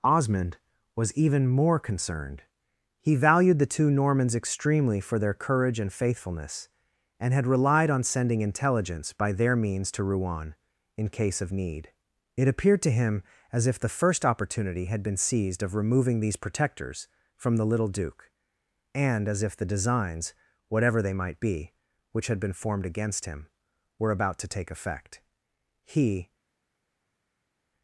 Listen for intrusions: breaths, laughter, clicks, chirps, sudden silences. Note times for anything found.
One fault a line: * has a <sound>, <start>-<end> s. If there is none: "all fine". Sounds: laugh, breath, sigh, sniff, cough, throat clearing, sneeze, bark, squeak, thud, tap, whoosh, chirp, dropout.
all fine